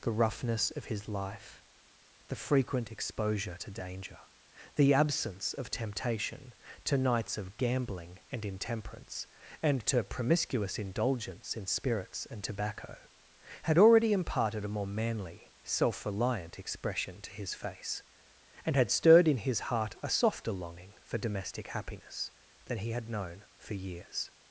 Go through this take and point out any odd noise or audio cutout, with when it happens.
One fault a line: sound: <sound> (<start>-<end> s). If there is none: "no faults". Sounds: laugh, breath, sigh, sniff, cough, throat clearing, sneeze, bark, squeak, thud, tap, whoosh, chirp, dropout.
no faults